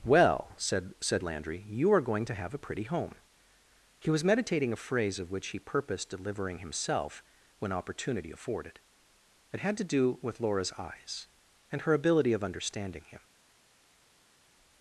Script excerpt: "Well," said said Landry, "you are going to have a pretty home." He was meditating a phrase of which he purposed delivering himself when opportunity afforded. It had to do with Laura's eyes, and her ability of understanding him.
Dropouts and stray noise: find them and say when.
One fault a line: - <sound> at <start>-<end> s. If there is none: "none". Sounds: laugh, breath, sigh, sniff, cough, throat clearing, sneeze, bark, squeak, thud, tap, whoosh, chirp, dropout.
none